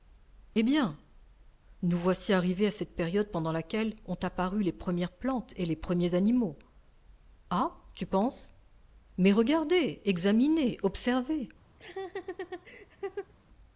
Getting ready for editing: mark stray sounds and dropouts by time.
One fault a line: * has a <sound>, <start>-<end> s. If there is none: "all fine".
* has a laugh, 11.8-13.3 s